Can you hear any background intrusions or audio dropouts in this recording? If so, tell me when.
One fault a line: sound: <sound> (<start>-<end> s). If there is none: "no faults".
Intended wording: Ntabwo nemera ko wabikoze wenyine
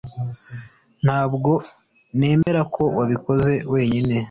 sound: dropout (2.4-2.5 s)